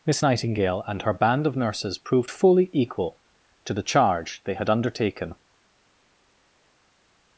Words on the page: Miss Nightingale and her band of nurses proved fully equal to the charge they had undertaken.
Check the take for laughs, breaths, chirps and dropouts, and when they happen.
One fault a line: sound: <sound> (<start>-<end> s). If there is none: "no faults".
no faults